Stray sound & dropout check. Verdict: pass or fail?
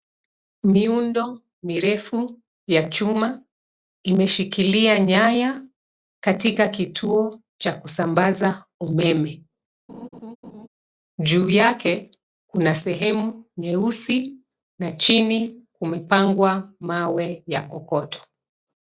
fail